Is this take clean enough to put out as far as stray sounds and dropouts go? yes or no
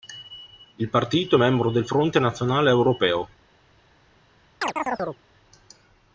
no